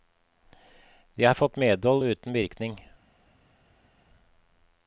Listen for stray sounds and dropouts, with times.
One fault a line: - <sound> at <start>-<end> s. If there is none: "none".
none